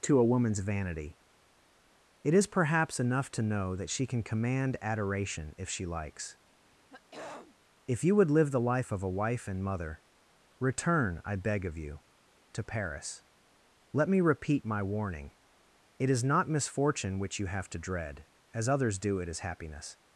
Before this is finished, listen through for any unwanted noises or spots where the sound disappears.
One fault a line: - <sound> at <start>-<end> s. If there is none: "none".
- throat clearing at 6.6-7.5 s